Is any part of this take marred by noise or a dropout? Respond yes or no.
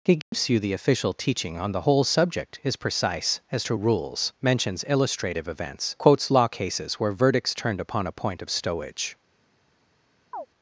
yes